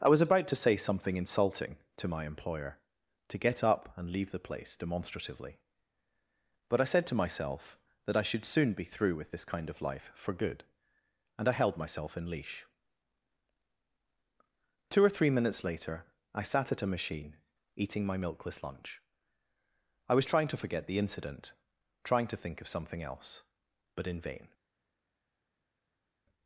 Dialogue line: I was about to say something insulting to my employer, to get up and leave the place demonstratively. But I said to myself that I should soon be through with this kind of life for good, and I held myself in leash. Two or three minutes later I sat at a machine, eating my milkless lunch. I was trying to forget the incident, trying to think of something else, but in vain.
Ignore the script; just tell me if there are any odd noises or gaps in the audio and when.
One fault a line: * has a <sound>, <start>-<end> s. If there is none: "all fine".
all fine